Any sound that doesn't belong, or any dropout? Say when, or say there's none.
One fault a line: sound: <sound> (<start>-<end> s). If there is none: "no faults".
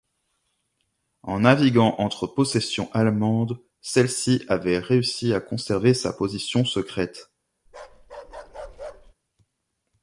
sound: bark (7.7-9.1 s)